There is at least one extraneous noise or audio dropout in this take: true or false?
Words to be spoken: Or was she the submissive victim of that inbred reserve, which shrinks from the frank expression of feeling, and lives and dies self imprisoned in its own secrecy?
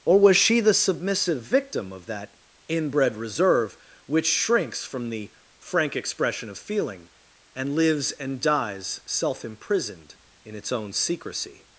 false